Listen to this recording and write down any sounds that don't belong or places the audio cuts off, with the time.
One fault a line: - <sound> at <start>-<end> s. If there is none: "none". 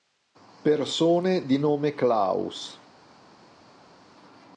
none